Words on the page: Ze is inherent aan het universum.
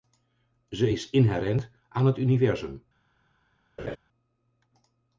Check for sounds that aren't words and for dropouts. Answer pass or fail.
fail